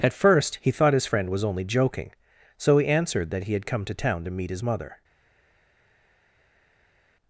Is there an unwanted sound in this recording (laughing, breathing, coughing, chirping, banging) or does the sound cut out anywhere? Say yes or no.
no